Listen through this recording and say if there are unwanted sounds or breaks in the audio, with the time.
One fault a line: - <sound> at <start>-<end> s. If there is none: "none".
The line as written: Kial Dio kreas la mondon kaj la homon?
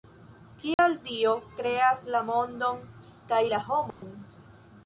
- dropout at 0.7-0.8 s
- dropout at 3.9-4.0 s